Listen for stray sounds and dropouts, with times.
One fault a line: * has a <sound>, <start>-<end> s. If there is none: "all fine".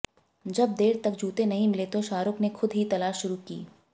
all fine